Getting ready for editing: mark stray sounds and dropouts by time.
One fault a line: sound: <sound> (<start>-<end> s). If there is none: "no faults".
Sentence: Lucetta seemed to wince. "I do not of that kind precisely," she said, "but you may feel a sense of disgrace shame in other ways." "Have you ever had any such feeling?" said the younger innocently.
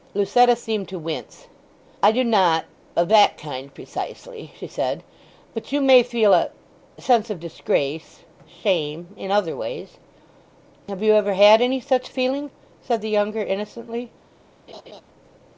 sound: laugh (14.7-15.0 s)